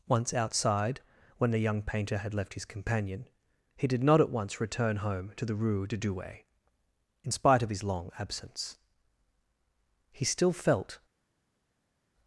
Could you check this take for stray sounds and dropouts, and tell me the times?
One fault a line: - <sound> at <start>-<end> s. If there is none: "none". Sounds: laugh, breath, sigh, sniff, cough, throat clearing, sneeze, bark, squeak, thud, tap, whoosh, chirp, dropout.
none